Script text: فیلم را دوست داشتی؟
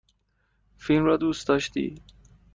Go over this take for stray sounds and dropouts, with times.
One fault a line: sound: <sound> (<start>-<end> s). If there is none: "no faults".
no faults